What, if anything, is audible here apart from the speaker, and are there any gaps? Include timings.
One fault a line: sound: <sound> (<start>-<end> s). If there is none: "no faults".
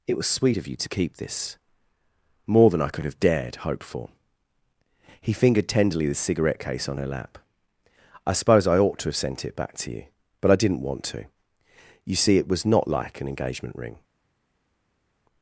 no faults